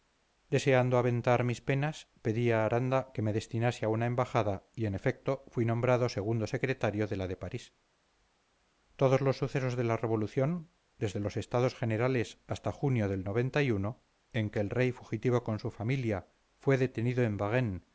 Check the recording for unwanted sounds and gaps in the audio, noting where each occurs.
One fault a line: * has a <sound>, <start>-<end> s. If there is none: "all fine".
all fine